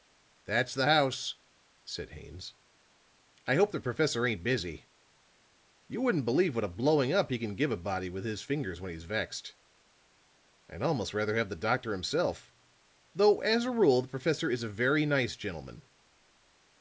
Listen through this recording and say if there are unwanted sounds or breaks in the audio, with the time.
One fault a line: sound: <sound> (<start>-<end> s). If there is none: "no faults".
no faults